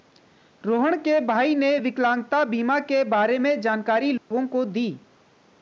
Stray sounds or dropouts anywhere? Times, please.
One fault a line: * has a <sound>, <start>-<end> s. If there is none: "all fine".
* has a dropout, 4.2-4.3 s